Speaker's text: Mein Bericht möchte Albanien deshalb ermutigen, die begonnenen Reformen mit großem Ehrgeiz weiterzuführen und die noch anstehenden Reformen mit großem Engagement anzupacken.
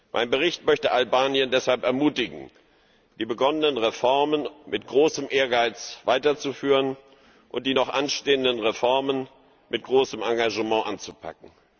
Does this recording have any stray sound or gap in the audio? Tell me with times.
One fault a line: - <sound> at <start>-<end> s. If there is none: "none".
none